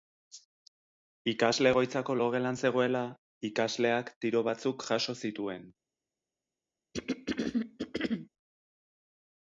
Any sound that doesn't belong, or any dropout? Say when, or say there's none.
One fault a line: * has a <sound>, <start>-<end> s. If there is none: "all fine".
* has a throat clearing, 6.9-8.3 s